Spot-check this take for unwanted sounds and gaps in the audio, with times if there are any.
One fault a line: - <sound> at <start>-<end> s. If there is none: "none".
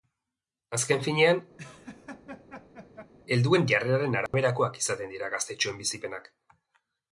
- laugh at 1.6-3.1 s
- dropout at 4.3-4.3 s